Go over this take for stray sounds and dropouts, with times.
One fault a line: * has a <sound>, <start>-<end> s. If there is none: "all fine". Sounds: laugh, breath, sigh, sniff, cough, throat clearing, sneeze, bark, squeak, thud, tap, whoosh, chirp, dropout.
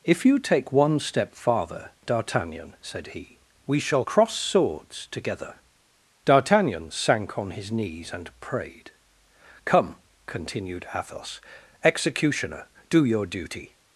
all fine